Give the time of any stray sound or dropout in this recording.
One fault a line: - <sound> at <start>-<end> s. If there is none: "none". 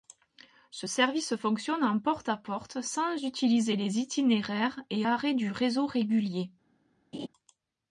- laugh at 7.1-7.3 s